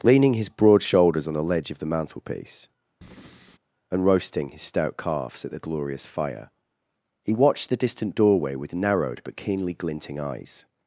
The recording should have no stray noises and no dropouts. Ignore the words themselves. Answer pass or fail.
fail